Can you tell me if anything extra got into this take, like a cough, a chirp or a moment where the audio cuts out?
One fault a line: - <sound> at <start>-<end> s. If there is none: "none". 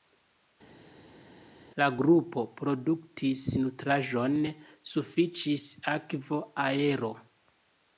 none